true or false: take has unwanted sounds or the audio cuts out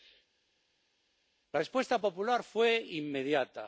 false